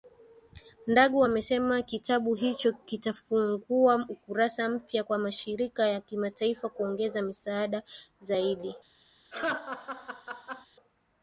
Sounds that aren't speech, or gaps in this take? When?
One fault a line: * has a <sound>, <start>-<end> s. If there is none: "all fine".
* has a laugh, 9.3-10.7 s